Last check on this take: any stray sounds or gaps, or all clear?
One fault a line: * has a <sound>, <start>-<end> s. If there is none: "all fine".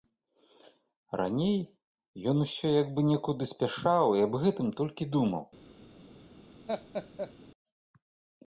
* has a laugh, 6.7-7.3 s